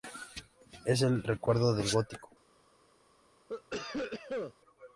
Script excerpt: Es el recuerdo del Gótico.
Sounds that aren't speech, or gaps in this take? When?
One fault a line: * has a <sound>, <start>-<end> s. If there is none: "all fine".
* has a cough, 3.5-4.5 s